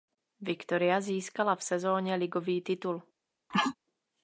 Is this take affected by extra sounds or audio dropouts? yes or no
yes